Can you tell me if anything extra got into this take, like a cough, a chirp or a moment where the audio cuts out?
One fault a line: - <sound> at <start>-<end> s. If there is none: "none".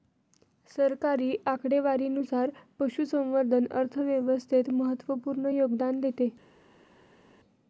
none